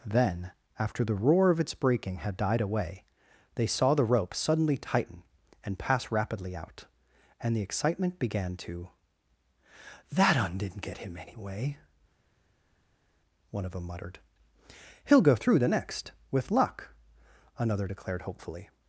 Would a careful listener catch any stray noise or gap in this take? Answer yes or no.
no